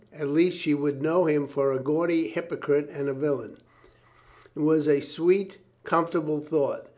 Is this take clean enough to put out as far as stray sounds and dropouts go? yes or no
yes